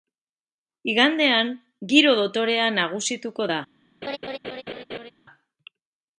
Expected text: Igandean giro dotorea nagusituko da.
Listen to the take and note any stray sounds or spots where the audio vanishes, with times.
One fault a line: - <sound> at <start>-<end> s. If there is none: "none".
- laugh at 4.0-5.1 s